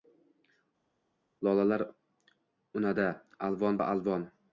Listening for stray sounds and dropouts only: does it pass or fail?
pass